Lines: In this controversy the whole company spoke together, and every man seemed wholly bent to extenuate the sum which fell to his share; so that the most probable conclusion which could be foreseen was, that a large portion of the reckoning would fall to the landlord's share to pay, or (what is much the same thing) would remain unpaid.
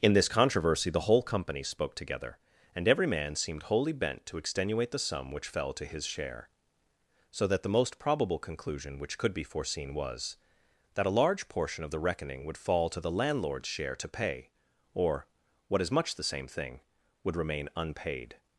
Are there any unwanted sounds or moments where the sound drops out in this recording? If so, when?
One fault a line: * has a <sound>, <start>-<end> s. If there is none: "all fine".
all fine